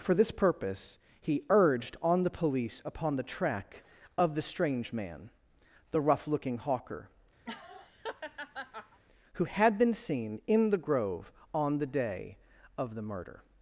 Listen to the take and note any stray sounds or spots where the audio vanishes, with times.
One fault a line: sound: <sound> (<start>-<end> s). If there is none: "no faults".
sound: laugh (7.4-9.0 s)